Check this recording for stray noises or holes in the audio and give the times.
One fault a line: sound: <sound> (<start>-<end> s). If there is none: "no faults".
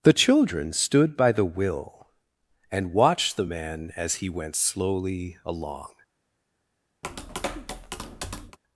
sound: tap (7.0-8.6 s)